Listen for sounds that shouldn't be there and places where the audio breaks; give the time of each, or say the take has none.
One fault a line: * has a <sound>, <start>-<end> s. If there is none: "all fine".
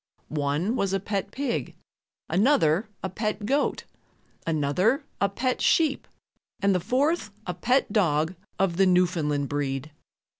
all fine